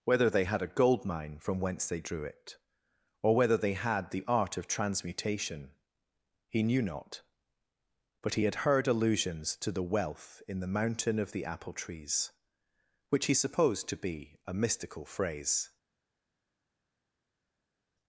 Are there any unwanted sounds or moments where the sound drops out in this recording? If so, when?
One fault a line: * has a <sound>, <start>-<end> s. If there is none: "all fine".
all fine